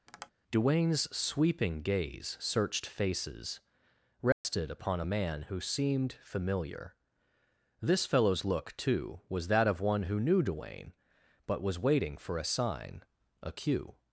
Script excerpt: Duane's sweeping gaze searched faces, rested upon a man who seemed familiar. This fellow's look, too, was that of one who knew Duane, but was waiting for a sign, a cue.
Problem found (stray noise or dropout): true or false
true